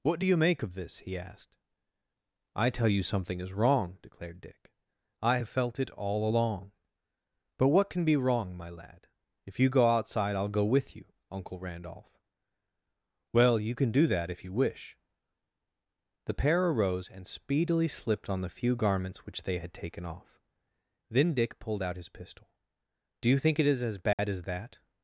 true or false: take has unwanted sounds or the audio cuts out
true